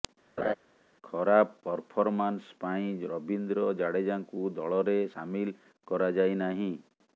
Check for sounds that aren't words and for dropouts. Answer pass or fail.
fail